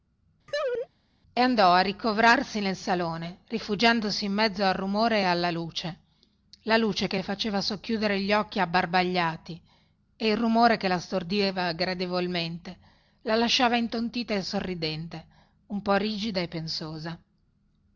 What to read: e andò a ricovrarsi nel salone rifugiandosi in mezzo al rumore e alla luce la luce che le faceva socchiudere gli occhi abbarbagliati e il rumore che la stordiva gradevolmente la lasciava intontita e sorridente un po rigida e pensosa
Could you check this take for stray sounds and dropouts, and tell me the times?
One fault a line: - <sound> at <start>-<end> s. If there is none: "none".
- laugh at 0.5-0.9 s